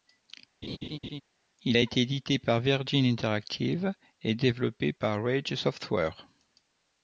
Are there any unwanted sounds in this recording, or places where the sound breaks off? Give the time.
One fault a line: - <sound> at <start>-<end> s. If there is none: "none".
- laugh at 0.6-1.2 s